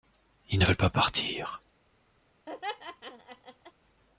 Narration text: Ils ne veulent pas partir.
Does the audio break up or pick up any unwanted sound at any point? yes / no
yes